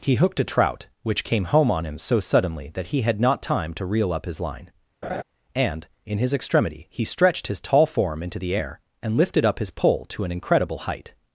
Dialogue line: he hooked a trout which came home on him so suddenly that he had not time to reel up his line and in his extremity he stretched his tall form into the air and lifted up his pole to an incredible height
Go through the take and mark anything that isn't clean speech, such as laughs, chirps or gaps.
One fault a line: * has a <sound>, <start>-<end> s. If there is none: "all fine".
* has a laugh, 5.0-5.2 s